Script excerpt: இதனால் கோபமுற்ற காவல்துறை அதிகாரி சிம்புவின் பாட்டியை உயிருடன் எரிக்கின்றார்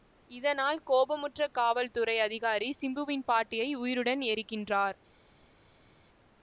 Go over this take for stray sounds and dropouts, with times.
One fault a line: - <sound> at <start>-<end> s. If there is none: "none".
none